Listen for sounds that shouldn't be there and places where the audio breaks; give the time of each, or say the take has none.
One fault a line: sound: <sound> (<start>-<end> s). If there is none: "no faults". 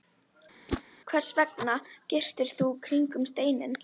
sound: whoosh (0.7-0.8 s)